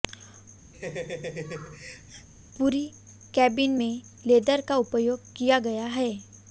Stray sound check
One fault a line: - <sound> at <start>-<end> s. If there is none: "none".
- laugh at 0.7-2.3 s